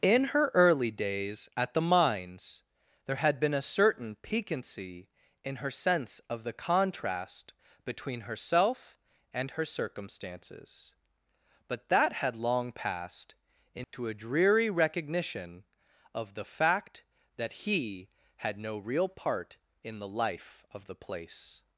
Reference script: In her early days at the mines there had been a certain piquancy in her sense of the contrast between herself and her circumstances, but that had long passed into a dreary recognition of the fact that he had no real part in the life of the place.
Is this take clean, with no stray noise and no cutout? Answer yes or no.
no